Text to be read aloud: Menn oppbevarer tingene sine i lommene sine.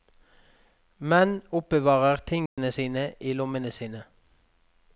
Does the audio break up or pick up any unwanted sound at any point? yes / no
yes